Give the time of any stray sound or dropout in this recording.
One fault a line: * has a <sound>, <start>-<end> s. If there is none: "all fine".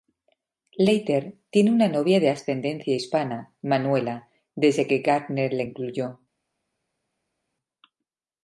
all fine